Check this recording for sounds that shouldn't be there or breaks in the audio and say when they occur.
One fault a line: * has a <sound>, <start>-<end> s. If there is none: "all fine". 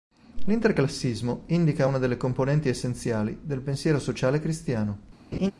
* has a laugh, 5.3-5.5 s